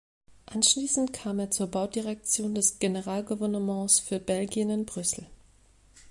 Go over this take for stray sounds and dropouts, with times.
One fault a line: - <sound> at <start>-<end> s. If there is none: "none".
none